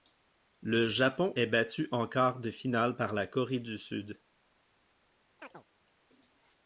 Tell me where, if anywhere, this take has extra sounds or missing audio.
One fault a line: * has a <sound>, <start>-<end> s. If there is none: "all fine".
* has a chirp, 5.4-5.6 s